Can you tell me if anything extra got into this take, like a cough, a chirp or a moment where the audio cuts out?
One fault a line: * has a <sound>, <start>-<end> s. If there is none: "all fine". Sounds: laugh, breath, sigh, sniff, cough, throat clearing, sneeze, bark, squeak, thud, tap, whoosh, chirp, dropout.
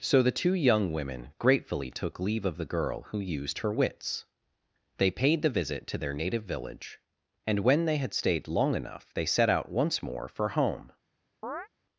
* has a chirp, 11.4-11.7 s